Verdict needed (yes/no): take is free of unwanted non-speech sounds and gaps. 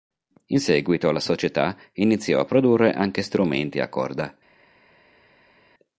yes